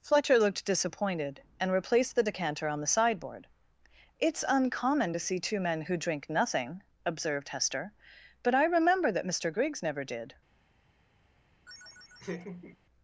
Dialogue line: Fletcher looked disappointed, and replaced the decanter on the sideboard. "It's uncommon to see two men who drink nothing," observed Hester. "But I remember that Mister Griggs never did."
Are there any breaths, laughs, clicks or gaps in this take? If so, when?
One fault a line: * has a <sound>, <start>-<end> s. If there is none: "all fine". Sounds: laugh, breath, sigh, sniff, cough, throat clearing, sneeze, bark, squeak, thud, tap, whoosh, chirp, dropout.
* has a laugh, 11.7-12.8 s